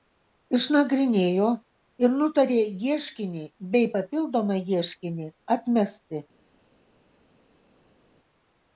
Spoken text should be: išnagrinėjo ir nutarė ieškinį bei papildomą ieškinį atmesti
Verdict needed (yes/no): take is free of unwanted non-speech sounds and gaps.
yes